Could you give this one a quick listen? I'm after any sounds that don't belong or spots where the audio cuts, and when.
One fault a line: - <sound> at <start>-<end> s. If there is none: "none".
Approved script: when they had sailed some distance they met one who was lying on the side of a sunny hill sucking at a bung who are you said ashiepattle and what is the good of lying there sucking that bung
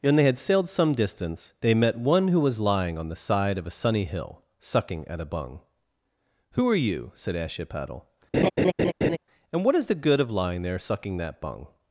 - laugh at 8.3-9.2 s